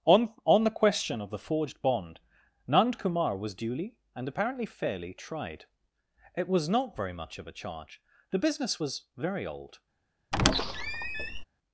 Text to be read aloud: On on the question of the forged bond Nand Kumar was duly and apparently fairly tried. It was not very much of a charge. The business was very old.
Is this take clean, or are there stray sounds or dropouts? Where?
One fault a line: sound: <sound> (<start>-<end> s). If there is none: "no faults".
sound: squeak (10.3-11.4 s)